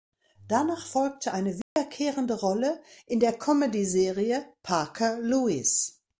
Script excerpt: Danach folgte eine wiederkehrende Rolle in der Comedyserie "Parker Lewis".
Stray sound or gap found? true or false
true